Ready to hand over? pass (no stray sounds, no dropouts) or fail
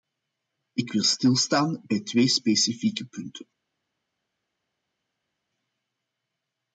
pass